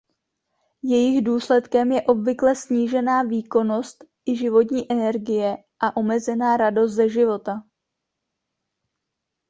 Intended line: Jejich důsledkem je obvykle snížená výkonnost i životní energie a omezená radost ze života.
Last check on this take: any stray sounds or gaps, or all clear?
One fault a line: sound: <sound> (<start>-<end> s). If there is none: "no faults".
no faults